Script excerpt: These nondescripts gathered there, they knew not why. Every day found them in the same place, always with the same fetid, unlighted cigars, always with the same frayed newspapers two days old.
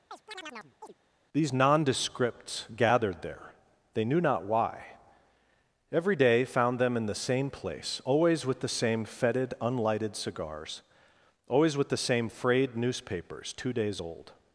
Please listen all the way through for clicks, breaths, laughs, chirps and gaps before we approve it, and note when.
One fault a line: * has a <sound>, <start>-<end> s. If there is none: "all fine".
* has a chirp, 0.1-0.9 s